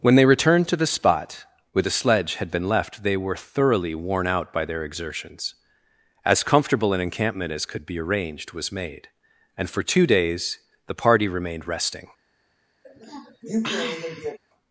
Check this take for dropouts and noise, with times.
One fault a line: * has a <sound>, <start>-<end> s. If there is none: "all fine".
* has a sniff, 12.8-14.4 s